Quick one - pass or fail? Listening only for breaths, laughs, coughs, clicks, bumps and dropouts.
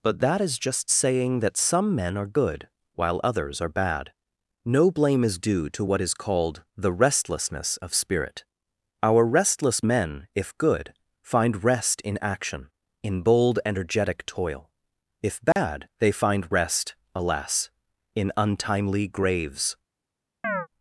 fail